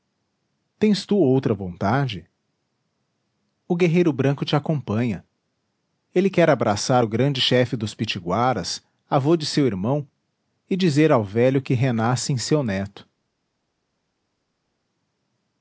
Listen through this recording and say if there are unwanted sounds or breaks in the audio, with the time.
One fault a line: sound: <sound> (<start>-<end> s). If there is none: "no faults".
no faults